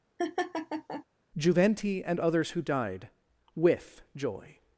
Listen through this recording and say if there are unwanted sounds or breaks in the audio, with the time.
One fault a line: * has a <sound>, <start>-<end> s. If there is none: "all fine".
* has a laugh, 0.2-1.0 s